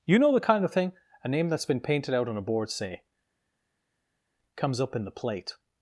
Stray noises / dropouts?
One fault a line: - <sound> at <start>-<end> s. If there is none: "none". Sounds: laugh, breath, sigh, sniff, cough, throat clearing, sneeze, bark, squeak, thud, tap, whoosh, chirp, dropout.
none